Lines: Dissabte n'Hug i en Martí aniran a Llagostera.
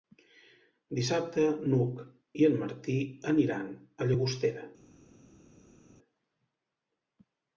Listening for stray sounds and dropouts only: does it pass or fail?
pass